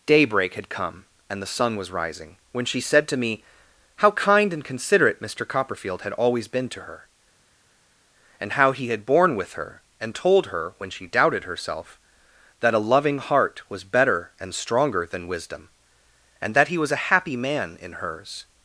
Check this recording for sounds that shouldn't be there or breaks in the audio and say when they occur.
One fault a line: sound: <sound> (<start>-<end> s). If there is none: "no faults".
no faults